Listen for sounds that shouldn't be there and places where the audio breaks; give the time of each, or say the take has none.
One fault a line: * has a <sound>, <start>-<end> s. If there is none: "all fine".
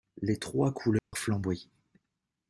* has a dropout, 1.0-1.1 s